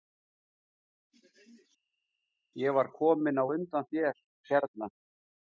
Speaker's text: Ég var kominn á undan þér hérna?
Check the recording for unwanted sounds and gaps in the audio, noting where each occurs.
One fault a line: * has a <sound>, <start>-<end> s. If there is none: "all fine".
all fine